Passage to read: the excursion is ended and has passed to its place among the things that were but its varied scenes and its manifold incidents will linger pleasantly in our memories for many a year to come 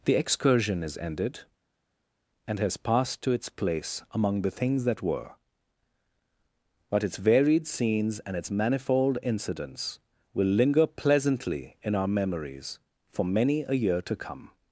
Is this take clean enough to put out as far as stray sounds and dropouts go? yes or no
yes